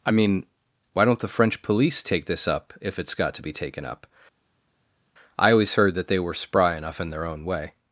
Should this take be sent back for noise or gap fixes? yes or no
no